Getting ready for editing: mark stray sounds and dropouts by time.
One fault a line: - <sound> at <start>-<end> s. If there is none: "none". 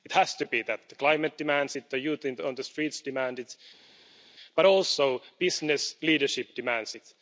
none